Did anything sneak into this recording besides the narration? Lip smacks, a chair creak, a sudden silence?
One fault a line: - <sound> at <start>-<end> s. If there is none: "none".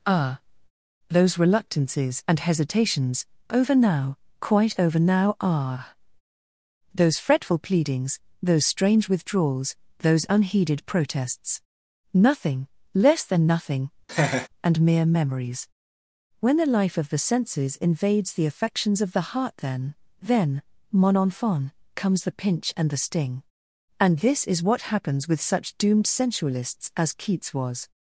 - laugh at 14.1-14.5 s